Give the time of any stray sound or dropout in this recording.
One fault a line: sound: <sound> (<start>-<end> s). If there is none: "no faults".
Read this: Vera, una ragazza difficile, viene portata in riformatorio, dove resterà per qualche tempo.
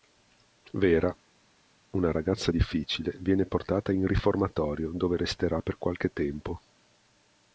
no faults